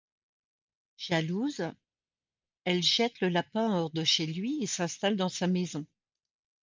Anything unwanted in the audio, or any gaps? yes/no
no